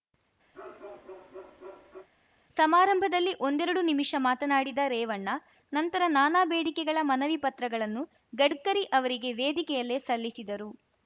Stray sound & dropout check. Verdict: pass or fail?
fail